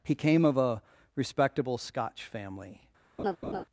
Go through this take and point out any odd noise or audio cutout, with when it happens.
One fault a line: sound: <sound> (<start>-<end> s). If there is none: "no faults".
sound: laugh (3.2-3.6 s)